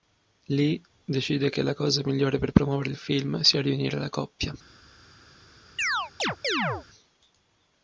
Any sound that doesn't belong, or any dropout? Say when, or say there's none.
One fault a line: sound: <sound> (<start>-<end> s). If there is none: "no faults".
sound: chirp (5.8-6.9 s)